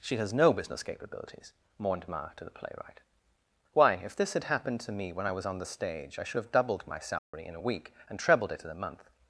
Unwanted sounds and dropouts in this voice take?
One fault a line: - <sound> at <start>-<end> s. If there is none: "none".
- dropout at 7.2-7.3 s